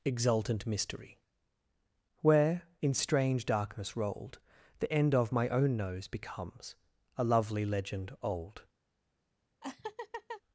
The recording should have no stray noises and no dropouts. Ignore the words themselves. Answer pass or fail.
fail